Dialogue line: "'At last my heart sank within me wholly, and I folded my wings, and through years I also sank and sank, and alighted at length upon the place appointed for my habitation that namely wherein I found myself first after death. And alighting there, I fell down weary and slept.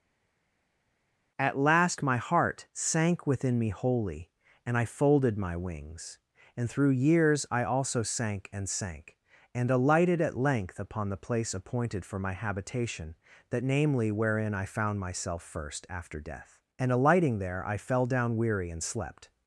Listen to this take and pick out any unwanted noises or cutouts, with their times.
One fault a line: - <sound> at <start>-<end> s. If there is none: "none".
none